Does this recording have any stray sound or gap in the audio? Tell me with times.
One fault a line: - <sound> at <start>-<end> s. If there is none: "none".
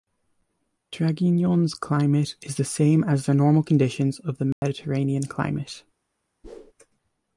- dropout at 4.5-4.6 s
- whoosh at 6.4-6.7 s